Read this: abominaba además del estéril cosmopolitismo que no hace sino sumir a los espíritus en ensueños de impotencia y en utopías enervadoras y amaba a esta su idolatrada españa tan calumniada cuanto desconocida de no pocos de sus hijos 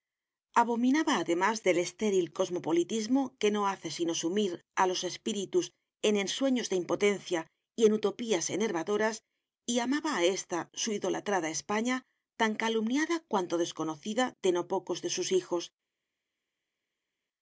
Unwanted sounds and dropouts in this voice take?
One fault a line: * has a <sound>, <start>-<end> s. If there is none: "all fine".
all fine